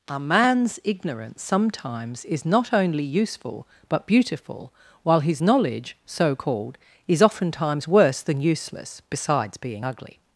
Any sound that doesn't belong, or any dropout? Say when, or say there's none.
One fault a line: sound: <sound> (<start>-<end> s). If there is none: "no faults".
no faults